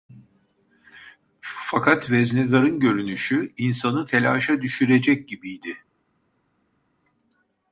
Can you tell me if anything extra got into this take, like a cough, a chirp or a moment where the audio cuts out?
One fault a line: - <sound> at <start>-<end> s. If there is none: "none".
none